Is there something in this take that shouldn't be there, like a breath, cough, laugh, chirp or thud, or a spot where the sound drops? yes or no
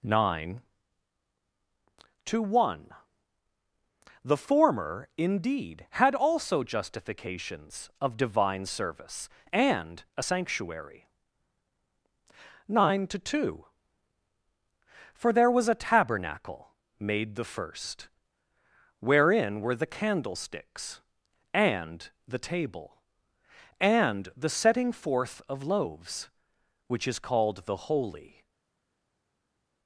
no